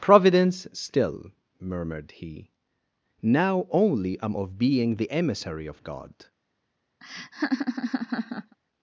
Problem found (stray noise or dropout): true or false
true